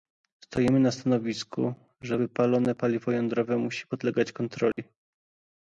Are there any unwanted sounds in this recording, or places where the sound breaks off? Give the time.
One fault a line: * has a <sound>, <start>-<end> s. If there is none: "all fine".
* has a dropout, 4.7-4.8 s